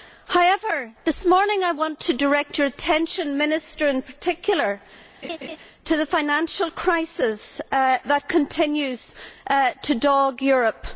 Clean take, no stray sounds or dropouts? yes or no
no